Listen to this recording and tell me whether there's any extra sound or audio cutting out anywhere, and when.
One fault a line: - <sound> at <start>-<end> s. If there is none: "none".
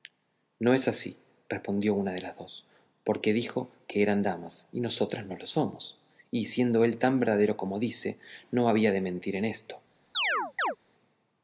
- chirp at 10.1-10.8 s